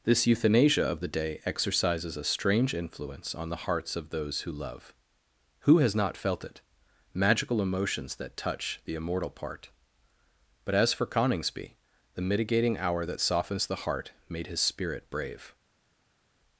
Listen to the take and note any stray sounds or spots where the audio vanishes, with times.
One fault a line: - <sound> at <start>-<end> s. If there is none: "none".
none